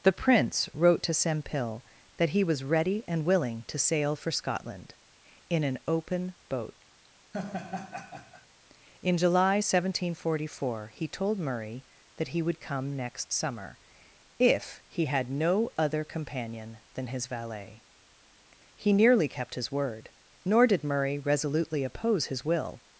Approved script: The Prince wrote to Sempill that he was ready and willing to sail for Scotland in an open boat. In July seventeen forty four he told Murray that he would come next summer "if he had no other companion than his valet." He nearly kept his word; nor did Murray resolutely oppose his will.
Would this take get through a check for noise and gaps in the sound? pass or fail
fail